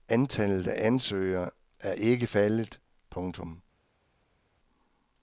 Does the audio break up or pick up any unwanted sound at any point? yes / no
no